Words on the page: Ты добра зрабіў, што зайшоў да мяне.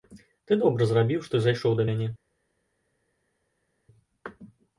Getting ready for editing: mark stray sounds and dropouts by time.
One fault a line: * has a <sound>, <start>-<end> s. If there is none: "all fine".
all fine